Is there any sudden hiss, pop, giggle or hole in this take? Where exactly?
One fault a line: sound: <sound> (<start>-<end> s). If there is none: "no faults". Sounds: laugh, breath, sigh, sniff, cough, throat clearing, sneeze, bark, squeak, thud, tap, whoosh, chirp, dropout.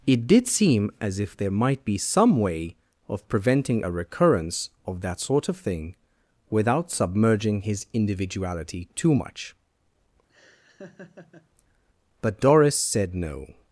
sound: laugh (10.3-11.5 s)